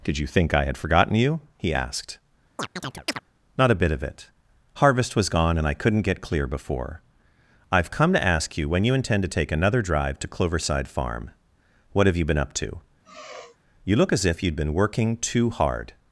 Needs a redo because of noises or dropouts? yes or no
yes